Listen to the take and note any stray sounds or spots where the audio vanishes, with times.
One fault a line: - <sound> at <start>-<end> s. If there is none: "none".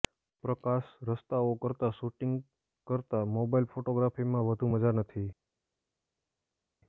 none